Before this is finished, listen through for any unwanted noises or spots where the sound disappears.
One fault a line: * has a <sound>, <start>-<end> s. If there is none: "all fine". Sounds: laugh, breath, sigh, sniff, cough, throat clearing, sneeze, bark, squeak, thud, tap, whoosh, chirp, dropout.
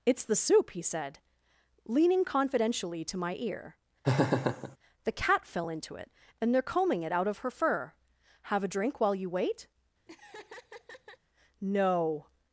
* has a laugh, 4.0-4.8 s
* has a laugh, 10.1-11.2 s